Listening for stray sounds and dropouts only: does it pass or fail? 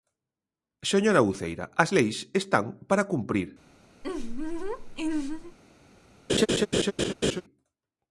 fail